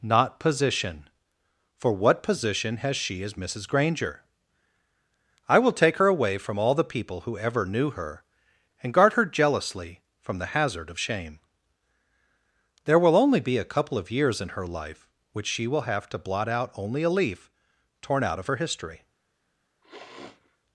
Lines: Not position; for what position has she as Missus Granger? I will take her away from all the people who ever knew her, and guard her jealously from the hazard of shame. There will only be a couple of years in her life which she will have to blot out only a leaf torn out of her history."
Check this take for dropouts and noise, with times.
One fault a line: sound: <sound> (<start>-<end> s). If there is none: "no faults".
sound: sniff (19.8-20.6 s)